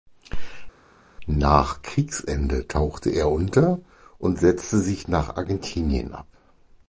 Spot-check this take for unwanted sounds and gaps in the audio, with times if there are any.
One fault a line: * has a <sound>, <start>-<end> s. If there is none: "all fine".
all fine